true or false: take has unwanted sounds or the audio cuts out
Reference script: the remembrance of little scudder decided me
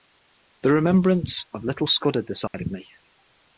true